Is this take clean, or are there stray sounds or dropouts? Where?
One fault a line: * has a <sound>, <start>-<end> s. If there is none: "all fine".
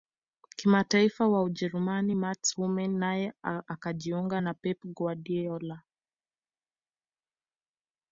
all fine